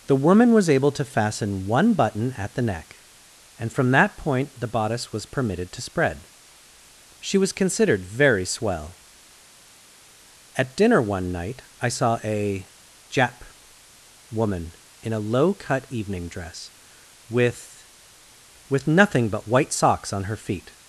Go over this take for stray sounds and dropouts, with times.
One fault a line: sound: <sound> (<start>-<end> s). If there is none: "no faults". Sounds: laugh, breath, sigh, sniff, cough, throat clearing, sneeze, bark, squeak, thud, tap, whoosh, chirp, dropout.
no faults